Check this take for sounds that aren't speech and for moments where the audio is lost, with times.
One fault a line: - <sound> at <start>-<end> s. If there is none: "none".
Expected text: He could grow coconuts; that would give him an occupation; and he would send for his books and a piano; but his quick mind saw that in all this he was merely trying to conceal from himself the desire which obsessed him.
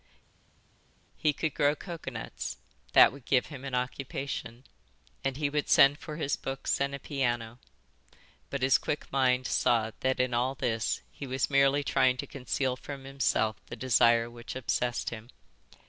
none